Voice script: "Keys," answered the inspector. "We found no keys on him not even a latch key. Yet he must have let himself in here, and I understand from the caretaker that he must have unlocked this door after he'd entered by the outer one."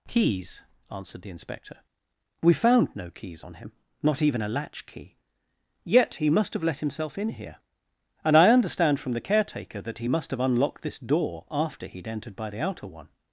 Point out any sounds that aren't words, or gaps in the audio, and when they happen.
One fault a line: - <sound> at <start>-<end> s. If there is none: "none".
none